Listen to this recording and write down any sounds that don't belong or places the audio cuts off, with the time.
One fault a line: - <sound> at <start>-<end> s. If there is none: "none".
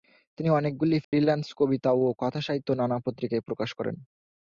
- dropout at 1.0-1.1 s